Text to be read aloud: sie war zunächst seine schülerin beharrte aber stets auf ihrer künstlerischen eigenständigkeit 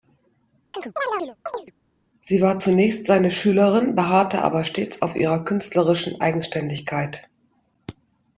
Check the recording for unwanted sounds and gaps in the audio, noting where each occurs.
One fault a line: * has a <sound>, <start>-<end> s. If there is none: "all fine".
* has a chirp, 0.7-1.7 s